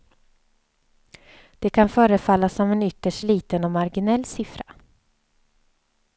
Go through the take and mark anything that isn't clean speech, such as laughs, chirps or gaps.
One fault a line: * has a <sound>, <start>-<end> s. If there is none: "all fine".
all fine